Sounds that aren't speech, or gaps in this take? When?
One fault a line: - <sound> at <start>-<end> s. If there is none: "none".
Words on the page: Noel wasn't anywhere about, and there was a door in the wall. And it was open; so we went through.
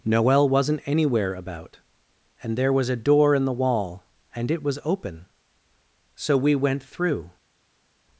none